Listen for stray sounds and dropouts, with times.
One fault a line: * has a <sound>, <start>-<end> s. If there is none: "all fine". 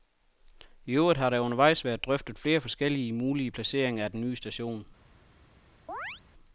* has a chirp, 5.9-6.2 s